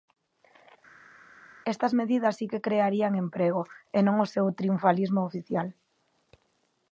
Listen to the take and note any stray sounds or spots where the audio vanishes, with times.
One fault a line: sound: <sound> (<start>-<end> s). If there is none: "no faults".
no faults